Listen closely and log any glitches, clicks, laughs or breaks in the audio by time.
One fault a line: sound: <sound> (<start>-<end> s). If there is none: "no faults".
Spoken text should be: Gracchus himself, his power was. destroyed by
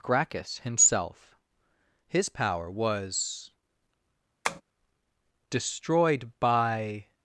sound: tap (4.4-4.6 s)